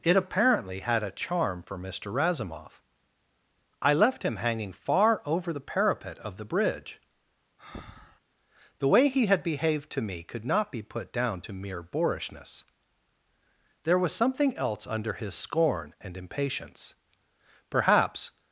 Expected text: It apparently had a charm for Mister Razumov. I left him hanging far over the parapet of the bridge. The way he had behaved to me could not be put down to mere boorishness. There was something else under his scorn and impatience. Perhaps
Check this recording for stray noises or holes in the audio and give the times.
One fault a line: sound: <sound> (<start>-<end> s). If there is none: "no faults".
sound: breath (7.6-8.2 s)